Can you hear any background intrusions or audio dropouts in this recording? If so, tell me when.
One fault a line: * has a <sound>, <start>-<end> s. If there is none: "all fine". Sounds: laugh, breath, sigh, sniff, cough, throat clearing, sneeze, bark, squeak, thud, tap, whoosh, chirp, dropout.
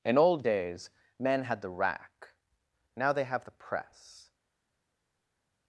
all fine